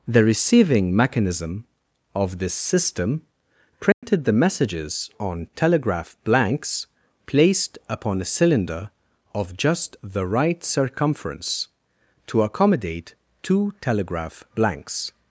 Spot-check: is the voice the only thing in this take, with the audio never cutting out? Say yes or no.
no